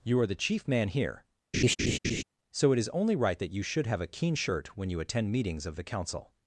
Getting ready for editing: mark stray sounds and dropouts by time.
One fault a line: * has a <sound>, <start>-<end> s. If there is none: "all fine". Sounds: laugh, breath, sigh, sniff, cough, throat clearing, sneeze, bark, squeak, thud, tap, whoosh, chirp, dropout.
* has a laugh, 1.5-2.2 s